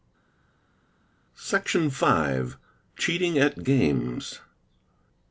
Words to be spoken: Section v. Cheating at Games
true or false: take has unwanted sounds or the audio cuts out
false